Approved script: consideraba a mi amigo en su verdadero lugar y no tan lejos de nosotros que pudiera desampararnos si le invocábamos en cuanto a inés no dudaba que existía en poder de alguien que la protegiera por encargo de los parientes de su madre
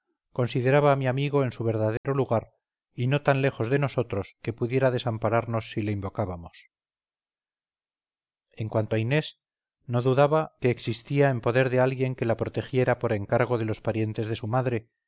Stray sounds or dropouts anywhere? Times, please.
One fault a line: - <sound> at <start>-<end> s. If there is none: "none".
- dropout at 2.0-2.0 s